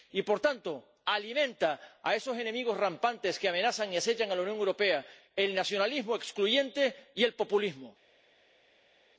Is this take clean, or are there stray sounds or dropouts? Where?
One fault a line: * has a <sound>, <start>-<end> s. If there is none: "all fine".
all fine